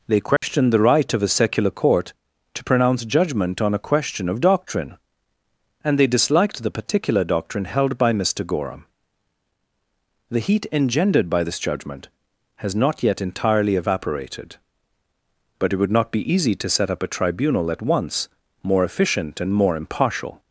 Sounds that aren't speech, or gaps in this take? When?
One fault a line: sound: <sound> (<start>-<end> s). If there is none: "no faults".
sound: dropout (0.4-0.4 s)